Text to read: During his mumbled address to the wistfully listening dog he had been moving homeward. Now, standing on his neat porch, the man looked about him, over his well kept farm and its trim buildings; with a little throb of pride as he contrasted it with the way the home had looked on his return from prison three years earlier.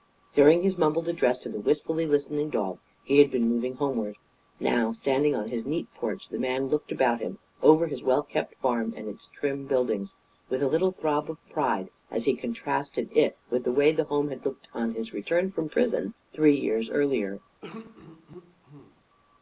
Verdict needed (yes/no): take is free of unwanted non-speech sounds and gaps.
no